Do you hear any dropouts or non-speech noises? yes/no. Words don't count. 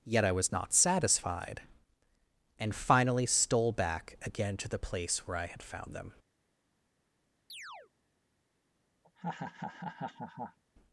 yes